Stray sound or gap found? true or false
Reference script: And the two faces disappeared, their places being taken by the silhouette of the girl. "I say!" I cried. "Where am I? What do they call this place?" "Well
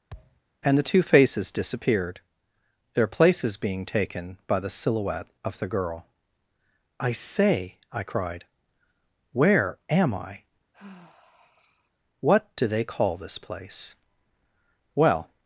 true